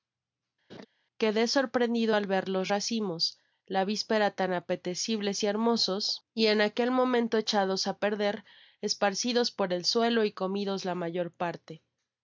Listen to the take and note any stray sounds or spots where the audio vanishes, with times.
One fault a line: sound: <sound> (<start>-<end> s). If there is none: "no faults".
sound: laugh (0.7-0.9 s)